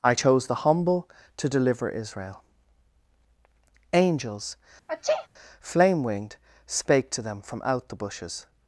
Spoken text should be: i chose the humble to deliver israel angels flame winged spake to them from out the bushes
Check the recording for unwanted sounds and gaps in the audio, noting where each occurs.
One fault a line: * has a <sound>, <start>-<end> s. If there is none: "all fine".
* has a sneeze, 4.9-5.3 s